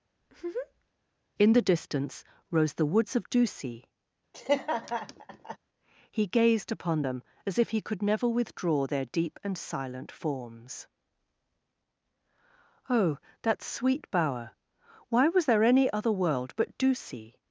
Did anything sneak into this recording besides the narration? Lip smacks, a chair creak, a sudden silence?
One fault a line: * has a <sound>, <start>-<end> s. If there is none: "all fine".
* has a laugh, 0.2-0.9 s
* has a laugh, 4.3-5.6 s